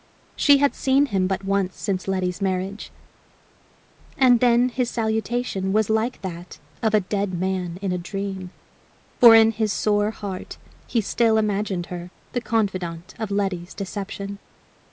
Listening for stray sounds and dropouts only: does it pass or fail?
pass